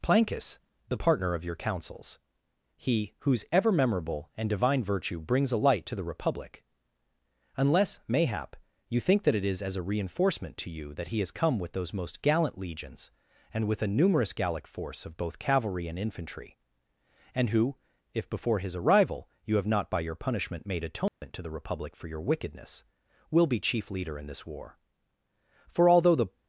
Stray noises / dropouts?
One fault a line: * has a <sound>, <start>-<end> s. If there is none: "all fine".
* has a dropout, 21.1-21.2 s